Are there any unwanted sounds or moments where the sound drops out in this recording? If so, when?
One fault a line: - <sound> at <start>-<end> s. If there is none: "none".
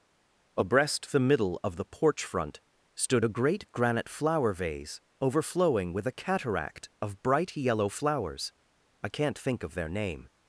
none